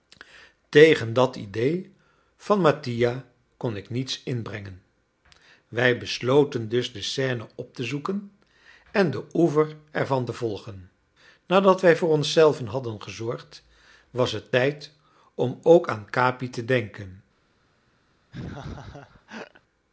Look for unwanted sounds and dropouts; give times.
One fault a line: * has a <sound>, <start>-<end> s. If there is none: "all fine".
* has a laugh, 18.3-19.6 s